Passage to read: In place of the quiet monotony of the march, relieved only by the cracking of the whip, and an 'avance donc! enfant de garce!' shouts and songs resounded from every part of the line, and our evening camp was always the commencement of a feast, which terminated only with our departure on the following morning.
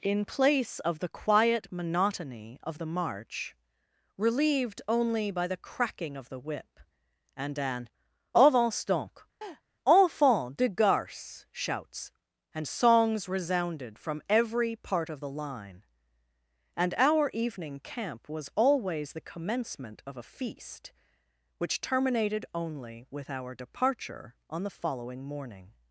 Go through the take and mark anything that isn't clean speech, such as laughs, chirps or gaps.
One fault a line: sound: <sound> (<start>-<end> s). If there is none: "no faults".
sound: laugh (9.4-9.6 s)